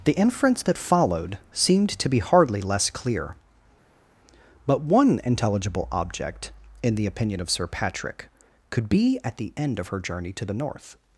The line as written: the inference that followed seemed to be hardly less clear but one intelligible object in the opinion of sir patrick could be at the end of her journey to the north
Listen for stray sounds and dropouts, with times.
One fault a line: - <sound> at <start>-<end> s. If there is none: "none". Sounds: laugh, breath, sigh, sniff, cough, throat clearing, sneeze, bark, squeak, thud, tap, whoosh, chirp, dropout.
none